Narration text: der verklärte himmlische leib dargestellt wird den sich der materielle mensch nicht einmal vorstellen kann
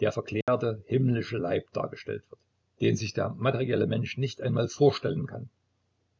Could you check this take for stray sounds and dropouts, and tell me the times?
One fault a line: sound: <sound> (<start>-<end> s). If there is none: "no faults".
sound: dropout (0.4-0.5 s)